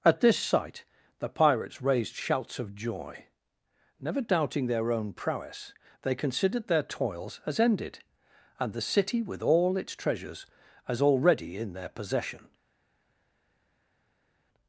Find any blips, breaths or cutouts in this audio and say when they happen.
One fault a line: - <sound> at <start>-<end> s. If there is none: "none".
none